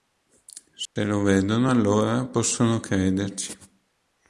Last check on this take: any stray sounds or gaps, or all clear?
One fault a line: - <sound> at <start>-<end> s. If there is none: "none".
- dropout at 0.9-1.0 s